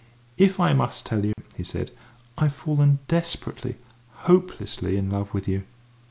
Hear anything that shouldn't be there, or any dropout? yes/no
yes